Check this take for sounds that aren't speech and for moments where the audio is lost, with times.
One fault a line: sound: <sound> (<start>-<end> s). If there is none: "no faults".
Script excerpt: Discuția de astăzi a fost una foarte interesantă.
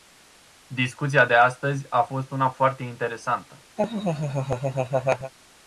sound: laugh (3.8-5.3 s)